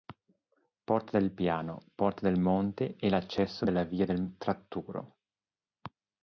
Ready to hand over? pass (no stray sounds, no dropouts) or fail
pass